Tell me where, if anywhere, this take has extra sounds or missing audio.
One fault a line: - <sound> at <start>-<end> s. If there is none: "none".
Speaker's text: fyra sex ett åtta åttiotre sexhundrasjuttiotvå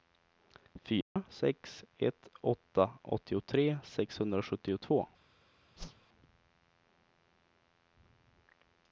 - dropout at 1.0-1.2 s
- whoosh at 5.8-6.1 s